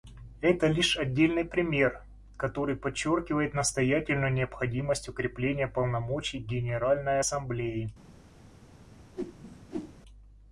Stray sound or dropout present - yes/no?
yes